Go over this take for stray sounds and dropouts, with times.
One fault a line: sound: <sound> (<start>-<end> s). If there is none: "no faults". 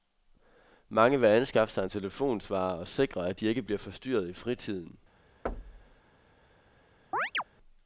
sound: thud (5.5-6.0 s)
sound: chirp (7.1-7.4 s)